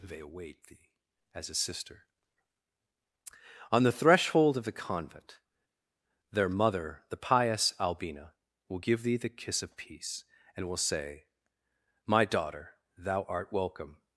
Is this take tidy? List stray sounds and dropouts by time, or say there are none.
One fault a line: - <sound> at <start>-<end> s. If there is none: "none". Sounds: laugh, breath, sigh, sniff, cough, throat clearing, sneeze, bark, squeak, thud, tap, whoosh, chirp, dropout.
none